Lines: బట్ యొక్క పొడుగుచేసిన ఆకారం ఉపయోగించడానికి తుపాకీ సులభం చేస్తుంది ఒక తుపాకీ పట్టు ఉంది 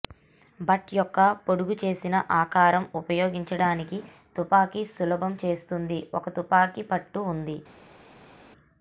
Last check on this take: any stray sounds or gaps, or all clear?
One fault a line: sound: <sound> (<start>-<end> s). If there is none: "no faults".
no faults